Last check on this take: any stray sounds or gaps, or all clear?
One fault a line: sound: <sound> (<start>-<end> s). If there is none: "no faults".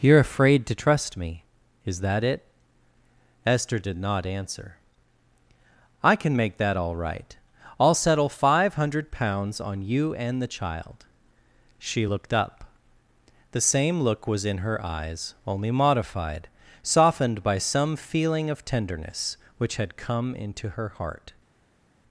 no faults